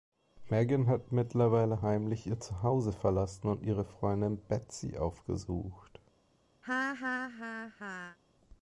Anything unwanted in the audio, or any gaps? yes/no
yes